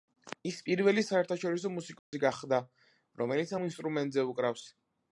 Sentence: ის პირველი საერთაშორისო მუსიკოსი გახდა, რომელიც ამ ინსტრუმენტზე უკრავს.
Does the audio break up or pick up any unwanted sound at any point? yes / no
yes